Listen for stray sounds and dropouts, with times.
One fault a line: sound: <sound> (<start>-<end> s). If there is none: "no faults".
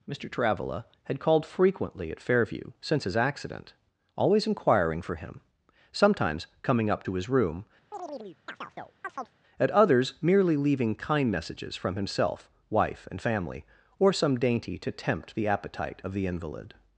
sound: chirp (7.9-9.4 s)